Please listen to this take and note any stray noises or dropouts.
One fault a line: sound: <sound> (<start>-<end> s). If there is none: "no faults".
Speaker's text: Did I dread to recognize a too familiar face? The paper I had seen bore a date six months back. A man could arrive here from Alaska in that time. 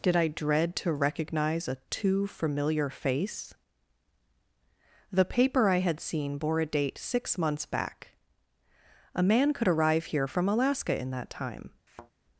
sound: thud (11.9-12.1 s)